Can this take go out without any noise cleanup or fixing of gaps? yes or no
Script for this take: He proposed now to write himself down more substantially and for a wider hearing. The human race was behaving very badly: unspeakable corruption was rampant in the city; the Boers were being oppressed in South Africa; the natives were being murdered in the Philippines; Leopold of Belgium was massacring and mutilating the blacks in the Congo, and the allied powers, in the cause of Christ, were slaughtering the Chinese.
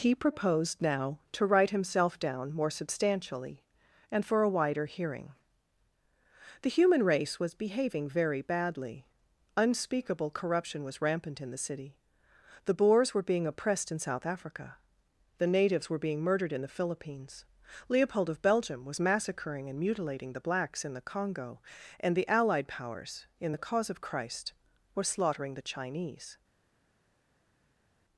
yes